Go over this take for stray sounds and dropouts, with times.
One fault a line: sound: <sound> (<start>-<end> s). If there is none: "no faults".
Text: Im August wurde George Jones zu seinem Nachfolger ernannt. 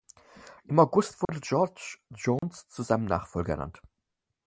sound: dropout (1.2-1.3 s)
sound: dropout (2.4-2.4 s)